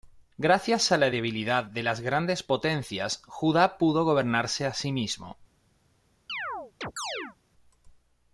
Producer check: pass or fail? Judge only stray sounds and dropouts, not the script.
fail